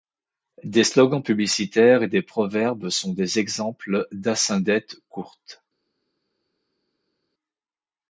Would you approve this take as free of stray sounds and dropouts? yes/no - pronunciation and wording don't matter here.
yes